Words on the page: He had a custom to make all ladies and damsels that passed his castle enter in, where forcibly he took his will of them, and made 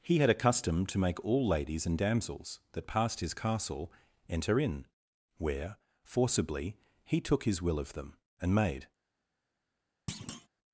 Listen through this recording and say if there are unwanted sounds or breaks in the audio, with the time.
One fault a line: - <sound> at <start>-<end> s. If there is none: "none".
- thud at 10.1-10.5 s